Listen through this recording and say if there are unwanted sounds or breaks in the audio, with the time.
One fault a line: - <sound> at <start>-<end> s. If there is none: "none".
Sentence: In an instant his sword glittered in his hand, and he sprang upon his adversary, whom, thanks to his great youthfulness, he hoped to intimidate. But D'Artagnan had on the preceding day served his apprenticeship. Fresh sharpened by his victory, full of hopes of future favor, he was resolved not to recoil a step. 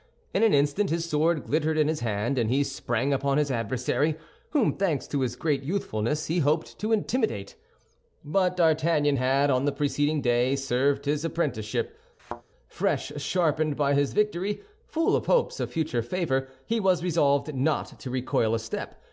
- thud at 12.2-12.4 s